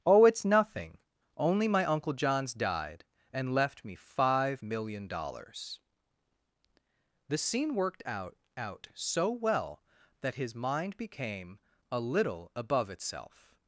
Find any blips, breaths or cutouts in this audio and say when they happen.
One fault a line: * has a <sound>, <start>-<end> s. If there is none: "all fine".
all fine